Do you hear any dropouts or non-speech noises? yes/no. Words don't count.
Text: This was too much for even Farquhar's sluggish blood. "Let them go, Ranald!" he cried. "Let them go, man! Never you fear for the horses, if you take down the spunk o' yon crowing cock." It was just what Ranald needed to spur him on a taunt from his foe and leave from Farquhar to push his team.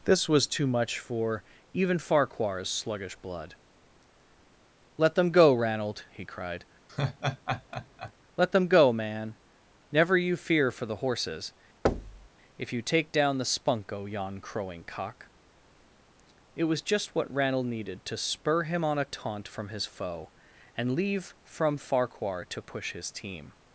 yes